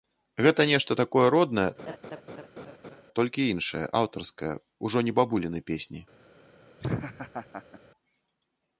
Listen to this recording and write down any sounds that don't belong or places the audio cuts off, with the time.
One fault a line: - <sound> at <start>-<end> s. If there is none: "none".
- laugh at 1.8-3.0 s
- laugh at 6.8-7.8 s